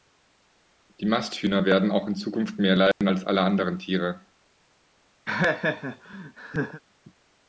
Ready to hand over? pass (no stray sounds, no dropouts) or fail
fail